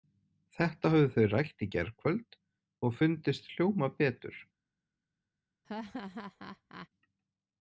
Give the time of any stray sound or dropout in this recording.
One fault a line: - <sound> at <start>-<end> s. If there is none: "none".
- laugh at 5.6-6.9 s